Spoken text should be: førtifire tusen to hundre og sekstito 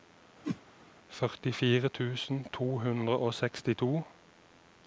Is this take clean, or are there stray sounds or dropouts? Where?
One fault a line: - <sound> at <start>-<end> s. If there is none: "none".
- whoosh at 0.4-0.6 s